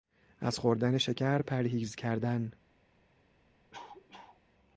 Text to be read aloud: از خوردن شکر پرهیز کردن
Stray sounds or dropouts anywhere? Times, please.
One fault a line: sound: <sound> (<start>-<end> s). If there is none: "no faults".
sound: cough (3.7-4.4 s)